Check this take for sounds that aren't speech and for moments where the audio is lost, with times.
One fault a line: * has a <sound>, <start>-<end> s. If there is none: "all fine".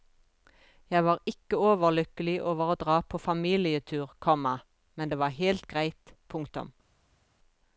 all fine